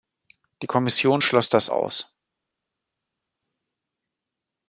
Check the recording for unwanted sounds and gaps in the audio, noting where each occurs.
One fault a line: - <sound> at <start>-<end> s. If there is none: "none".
none